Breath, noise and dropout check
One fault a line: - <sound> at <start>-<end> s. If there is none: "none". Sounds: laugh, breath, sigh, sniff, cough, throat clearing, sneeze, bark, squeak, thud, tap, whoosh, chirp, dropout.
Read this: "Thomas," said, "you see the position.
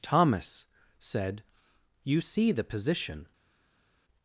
none